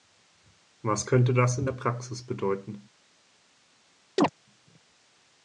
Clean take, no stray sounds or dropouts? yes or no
no